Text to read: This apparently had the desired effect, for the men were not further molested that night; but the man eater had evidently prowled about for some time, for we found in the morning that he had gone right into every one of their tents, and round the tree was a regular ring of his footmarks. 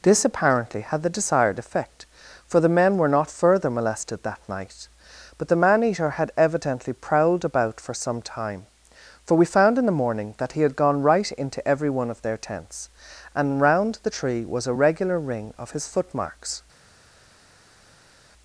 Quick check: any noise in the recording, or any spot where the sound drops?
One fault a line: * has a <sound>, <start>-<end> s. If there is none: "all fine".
all fine